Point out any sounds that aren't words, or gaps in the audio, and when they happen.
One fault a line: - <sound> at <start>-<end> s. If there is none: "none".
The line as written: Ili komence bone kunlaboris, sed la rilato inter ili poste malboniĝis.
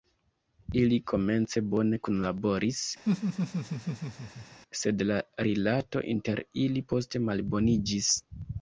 - laugh at 3.0-4.6 s